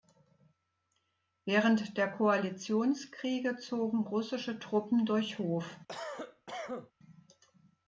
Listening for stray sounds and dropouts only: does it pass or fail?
fail